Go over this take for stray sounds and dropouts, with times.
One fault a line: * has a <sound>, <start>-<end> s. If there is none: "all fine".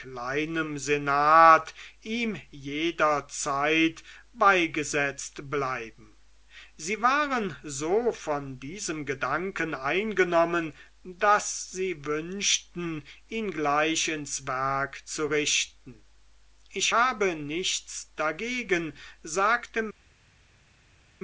all fine